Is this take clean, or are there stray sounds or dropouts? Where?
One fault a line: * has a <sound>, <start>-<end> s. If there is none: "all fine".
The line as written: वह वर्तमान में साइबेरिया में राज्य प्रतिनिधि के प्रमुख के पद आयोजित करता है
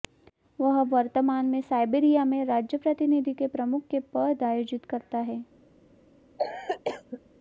* has a cough, 6.4-7.2 s